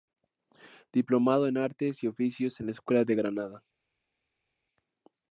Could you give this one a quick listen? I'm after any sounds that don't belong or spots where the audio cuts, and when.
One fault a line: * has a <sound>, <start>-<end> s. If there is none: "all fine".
all fine